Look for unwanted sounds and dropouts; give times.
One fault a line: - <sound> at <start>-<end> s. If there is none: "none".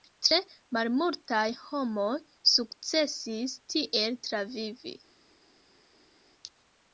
none